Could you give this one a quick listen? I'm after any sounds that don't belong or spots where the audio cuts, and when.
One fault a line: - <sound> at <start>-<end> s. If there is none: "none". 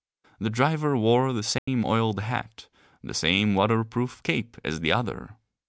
- dropout at 1.6-1.7 s